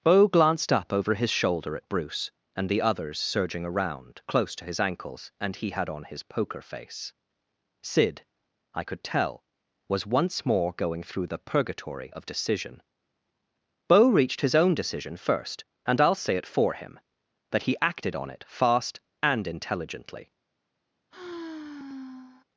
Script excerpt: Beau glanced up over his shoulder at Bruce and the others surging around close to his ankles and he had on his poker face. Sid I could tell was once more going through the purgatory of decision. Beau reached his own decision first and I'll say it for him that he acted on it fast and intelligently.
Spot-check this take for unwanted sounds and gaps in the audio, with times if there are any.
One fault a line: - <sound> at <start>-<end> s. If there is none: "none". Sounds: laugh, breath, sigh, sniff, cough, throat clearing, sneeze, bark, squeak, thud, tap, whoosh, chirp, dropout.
- sigh at 21.1-22.5 s